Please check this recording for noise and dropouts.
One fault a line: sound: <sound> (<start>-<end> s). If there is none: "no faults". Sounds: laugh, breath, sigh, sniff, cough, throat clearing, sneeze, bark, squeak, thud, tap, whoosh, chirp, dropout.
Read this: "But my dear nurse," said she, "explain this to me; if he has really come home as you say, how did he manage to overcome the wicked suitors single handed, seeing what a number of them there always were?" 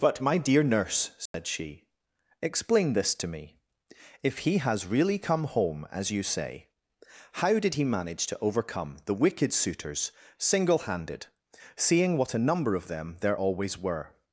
sound: dropout (1.3-1.3 s)